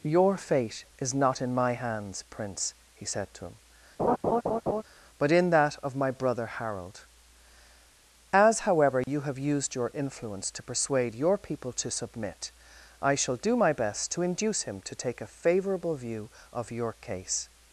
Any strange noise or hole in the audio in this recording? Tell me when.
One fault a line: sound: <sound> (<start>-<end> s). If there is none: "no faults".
sound: laugh (4.0-4.8 s)
sound: dropout (9.0-9.1 s)